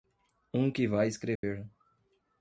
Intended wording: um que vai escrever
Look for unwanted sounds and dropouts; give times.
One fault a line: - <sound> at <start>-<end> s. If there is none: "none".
- dropout at 1.4-1.4 s